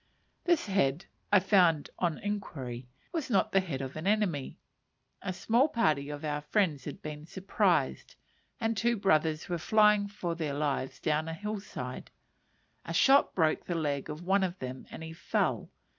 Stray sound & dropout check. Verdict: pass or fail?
pass